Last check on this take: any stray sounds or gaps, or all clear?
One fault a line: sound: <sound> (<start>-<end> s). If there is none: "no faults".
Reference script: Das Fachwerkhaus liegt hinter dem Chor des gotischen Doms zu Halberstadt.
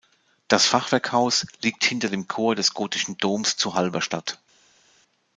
no faults